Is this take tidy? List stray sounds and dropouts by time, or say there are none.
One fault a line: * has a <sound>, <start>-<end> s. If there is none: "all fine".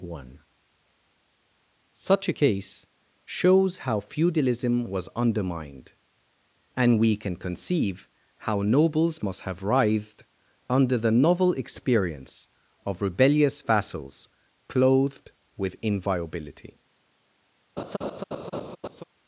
* has a laugh, 17.8-19.0 s